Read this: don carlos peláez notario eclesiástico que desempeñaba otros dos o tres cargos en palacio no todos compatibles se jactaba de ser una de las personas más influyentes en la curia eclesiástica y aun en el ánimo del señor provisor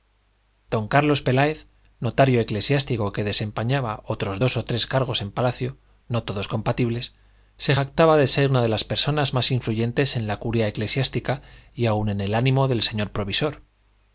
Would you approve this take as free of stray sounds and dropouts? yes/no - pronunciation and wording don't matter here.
yes